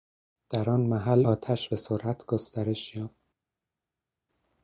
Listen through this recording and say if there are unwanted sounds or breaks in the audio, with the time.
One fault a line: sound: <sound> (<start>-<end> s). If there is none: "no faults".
no faults